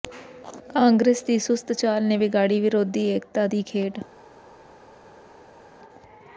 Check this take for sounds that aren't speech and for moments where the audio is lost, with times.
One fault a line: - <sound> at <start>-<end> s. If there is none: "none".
none